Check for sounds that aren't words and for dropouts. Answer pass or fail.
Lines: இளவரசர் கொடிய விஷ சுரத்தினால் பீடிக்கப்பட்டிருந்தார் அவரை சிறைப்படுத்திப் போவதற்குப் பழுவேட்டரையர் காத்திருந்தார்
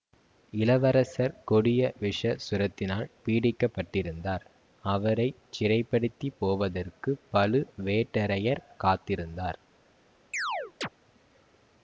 fail